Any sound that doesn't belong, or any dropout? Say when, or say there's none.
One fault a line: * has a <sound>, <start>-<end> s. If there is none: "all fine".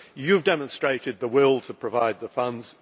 all fine